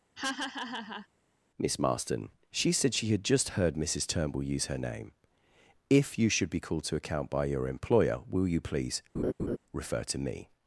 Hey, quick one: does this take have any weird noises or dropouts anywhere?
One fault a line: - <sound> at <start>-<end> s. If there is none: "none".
- laugh at 0.2-1.1 s
- laugh at 9.1-9.6 s